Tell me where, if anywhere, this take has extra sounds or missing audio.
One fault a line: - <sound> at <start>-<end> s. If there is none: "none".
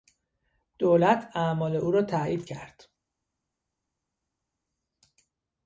none